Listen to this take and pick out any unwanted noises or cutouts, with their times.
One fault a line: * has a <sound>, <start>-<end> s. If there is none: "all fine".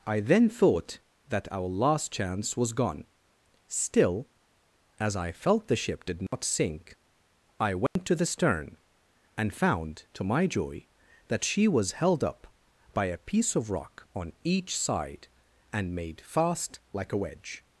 * has a dropout, 6.3-6.3 s
* has a dropout, 7.9-8.0 s